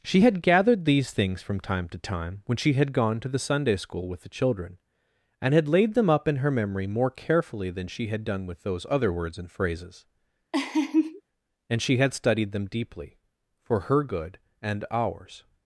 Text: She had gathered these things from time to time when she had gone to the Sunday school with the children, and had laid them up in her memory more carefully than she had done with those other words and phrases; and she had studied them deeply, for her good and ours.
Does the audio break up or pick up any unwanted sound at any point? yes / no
yes